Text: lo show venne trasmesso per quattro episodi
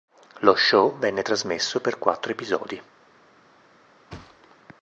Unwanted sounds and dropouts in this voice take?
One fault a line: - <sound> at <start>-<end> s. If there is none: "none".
- thud at 4.1-4.6 s